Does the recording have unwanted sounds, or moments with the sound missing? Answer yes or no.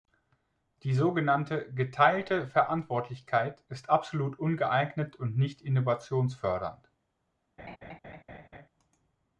yes